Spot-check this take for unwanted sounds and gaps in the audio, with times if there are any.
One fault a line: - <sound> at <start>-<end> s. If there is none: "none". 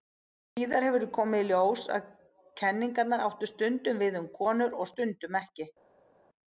none